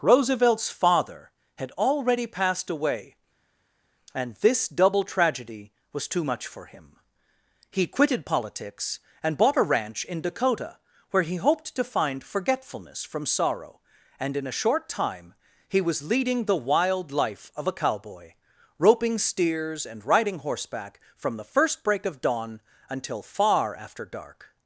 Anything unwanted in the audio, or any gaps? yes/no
no